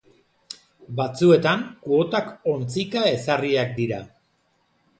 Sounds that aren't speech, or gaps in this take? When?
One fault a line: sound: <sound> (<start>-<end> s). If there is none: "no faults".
no faults